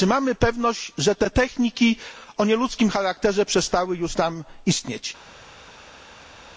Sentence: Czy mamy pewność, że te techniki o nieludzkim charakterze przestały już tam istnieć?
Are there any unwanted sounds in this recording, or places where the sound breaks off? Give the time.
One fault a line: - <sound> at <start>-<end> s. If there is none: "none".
none